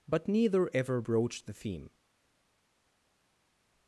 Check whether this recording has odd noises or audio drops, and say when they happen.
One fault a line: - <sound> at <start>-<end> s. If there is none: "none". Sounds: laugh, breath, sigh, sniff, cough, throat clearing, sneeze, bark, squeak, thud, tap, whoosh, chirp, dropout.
none